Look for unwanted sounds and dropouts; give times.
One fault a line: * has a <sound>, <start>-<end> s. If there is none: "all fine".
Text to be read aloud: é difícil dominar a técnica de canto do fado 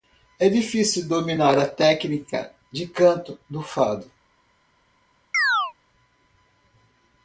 * has a chirp, 5.3-5.7 s